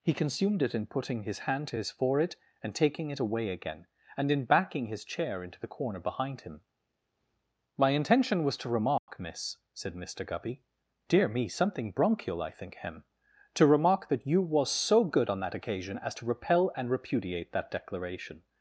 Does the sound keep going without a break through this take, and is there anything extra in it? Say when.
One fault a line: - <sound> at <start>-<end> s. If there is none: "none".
- dropout at 9.0-9.1 s